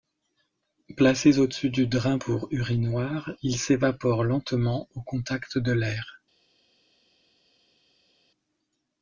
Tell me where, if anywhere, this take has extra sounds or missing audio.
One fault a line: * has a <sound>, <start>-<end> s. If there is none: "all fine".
all fine